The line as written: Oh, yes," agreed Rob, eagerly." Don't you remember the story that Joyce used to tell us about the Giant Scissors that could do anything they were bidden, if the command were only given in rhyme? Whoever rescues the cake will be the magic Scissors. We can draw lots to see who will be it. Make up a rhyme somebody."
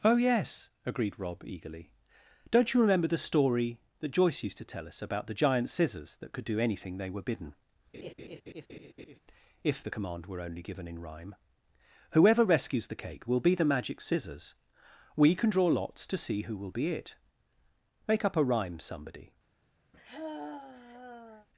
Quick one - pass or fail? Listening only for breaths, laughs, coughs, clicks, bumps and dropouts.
fail